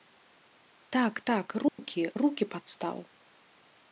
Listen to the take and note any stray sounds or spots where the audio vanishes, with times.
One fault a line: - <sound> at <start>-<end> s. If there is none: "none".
- dropout at 1.7-1.8 s